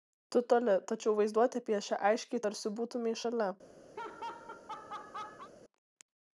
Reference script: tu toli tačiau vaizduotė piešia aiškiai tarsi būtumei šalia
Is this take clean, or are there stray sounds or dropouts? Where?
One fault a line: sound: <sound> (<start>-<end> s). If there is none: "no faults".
sound: laugh (4.0-5.5 s)